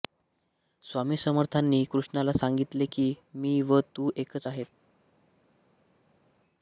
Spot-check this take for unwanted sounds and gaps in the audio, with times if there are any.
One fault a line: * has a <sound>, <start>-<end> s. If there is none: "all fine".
all fine